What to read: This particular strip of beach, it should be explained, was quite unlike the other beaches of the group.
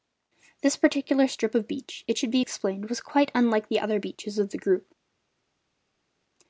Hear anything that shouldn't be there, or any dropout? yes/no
no